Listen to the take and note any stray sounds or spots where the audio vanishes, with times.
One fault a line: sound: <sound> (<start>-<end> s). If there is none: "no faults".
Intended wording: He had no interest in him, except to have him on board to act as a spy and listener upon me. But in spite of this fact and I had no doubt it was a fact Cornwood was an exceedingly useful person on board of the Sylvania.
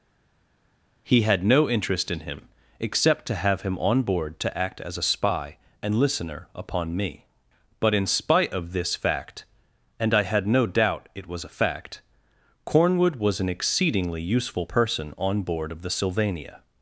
no faults